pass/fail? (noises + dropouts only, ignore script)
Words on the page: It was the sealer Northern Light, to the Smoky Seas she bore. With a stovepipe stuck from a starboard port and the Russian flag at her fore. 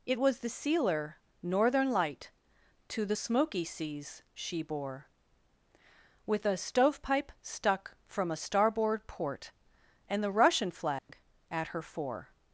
fail